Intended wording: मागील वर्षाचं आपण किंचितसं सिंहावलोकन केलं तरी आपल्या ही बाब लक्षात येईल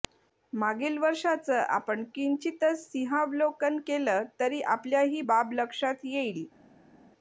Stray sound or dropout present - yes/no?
no